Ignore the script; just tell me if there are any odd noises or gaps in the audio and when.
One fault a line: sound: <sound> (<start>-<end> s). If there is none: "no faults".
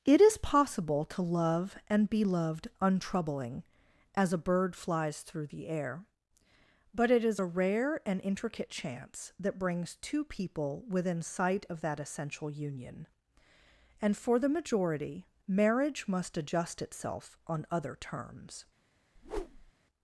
sound: whoosh (19.2-19.7 s)